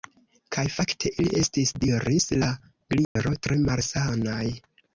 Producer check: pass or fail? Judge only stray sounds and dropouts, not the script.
fail